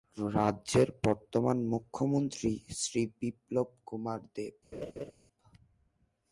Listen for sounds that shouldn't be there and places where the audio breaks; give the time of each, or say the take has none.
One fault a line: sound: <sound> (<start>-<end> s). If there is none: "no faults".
sound: laugh (4.7-5.1 s)